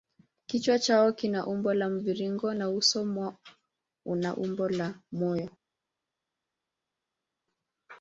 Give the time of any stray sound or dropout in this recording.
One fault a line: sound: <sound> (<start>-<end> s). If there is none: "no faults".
no faults